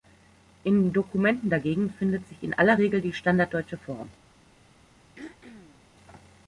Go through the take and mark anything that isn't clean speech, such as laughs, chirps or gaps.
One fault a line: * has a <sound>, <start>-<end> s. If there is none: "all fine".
* has a throat clearing, 5.2-5.8 s